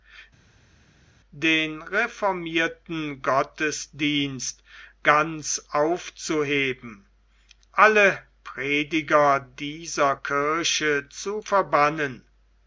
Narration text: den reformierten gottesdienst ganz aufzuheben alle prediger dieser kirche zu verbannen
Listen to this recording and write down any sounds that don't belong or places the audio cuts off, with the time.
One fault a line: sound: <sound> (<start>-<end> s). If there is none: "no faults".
no faults